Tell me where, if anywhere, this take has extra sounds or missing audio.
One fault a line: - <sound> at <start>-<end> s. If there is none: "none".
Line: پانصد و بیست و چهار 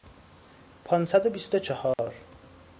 - dropout at 1.9-2.0 s